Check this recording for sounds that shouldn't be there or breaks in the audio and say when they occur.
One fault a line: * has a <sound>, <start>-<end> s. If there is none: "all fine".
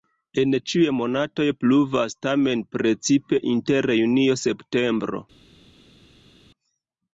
all fine